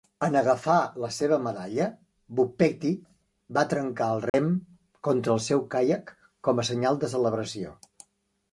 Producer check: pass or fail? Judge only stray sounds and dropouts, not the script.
fail